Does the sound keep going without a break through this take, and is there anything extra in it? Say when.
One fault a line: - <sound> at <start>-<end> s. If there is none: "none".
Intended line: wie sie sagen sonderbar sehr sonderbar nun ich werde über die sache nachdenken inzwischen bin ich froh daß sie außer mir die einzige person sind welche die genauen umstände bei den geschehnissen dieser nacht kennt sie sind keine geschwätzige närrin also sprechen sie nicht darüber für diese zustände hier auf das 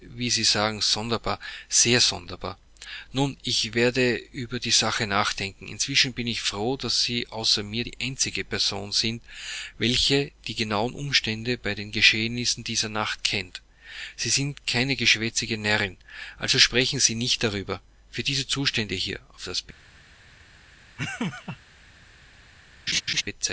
- laugh at 21.0-21.6 s
- laugh at 22.9-23.2 s